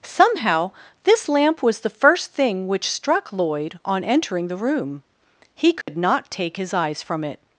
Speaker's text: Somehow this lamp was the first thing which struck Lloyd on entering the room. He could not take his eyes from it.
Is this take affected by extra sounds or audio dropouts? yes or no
yes